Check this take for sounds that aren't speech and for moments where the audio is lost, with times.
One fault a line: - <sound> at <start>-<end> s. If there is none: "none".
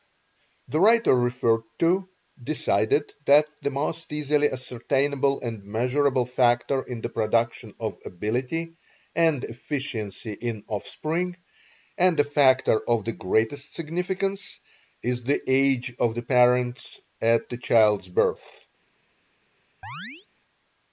- chirp at 19.8-20.3 s